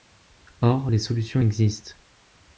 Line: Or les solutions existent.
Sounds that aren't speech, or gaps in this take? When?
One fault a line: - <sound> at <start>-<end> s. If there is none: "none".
none